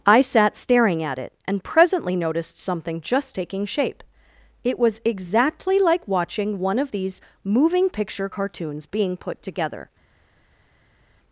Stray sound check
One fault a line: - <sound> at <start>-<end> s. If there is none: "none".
none